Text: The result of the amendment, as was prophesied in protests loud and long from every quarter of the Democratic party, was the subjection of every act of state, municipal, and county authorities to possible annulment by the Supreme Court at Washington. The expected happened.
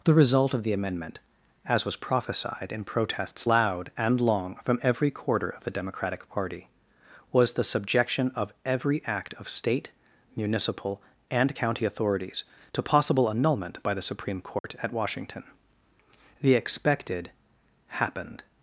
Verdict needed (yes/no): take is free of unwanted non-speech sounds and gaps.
no